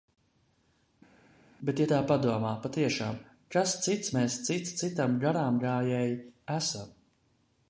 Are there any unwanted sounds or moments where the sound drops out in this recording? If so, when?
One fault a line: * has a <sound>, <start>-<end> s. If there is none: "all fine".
all fine